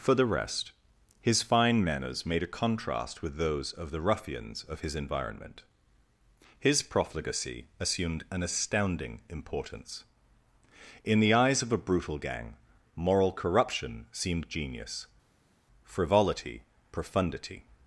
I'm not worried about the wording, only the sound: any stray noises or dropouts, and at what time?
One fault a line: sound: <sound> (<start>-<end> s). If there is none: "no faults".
no faults